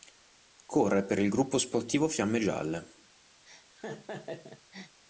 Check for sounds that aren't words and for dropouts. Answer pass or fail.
fail